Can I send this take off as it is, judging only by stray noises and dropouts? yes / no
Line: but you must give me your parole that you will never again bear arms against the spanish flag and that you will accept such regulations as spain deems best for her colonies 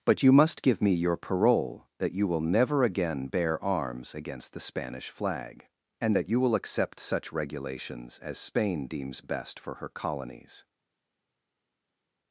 yes